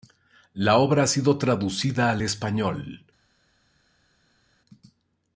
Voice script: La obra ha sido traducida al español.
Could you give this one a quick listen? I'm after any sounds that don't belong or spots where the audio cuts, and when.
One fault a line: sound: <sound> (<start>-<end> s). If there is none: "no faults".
no faults